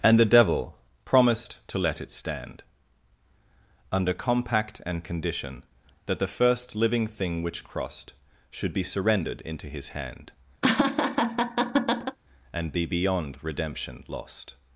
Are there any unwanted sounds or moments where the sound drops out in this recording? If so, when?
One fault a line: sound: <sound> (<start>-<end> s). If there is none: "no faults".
sound: laugh (10.6-12.2 s)